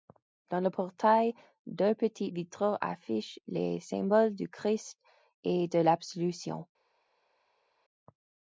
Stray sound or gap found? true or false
false